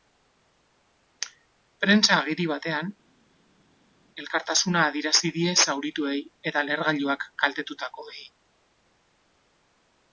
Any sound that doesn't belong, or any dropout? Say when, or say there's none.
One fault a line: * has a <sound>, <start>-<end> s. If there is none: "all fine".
all fine